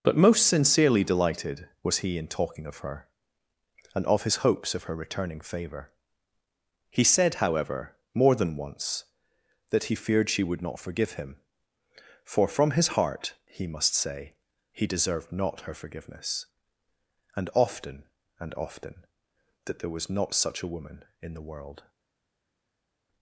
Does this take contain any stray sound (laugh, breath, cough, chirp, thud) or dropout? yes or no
no